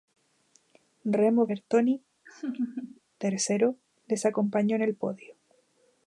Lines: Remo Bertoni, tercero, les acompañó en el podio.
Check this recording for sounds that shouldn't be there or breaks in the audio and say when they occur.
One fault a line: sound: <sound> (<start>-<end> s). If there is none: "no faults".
sound: laugh (2.3-3.0 s)